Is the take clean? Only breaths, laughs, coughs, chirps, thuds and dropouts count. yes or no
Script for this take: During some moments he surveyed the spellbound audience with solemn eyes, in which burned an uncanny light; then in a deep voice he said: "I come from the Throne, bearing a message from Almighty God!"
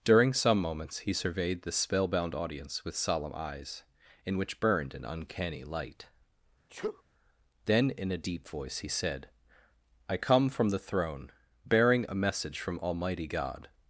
no